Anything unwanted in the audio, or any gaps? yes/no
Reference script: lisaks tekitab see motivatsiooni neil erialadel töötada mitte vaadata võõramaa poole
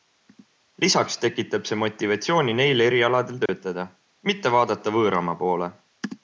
yes